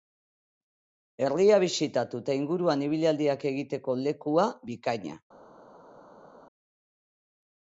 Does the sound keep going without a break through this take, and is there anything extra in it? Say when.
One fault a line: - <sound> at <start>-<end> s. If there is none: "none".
none